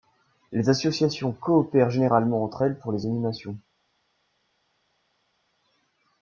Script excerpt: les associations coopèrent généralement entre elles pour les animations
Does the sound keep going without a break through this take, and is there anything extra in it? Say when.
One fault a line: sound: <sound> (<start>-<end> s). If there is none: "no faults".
no faults